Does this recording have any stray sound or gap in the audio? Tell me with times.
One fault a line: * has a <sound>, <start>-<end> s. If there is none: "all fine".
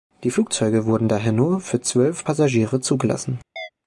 * has a chirp, 3.6-3.7 s